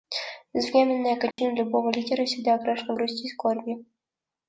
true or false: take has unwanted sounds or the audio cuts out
true